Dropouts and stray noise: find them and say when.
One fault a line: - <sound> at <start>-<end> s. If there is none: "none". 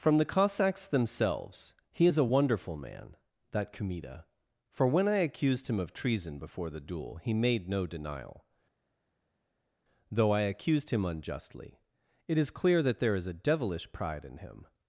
none